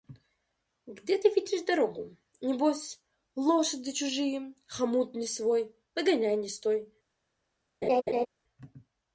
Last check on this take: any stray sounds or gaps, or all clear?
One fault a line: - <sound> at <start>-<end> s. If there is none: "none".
- laugh at 7.8-8.3 s